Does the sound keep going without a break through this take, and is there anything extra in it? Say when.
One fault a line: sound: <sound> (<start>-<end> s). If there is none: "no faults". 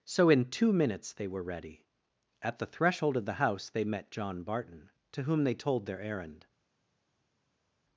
no faults